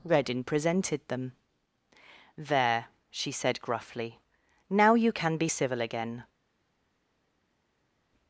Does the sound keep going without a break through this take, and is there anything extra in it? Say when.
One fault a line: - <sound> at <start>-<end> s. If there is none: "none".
none